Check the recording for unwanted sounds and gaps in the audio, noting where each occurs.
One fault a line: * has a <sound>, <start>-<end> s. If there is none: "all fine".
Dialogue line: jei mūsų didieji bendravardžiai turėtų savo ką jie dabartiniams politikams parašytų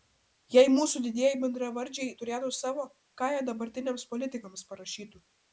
all fine